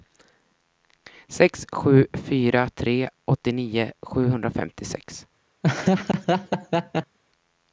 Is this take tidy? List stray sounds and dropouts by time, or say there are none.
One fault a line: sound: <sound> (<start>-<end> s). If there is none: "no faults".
sound: laugh (5.6-7.2 s)